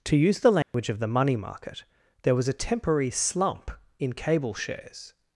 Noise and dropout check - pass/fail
fail